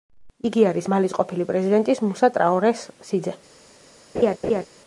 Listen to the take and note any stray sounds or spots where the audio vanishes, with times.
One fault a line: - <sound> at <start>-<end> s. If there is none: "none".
- laugh at 4.1-4.7 s